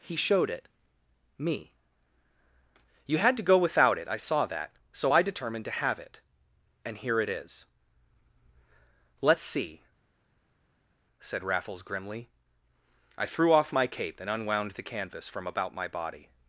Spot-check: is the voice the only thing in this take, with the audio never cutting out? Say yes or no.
yes